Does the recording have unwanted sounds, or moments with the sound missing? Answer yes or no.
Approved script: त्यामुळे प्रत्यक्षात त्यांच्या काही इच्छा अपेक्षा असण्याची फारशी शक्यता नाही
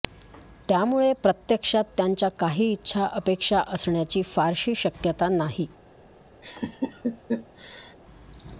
yes